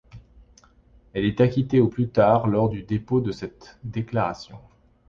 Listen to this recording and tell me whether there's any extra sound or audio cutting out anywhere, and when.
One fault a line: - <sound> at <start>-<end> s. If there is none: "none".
none